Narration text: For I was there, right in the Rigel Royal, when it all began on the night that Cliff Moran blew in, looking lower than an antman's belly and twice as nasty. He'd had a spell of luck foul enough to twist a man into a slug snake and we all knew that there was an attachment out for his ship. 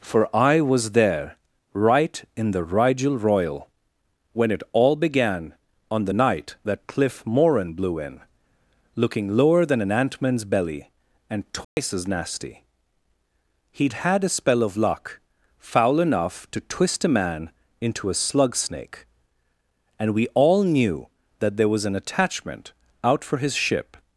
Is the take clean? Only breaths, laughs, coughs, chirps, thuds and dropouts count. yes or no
no